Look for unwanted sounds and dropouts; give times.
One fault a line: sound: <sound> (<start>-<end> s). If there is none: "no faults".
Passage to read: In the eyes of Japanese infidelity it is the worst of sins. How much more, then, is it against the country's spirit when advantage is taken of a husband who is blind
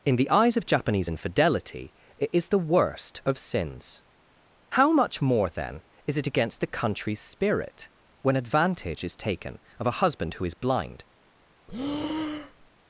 sound: breath (11.7-12.7 s)